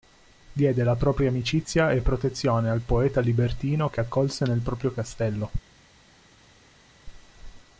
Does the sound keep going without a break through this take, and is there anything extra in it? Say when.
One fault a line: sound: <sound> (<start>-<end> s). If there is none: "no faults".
no faults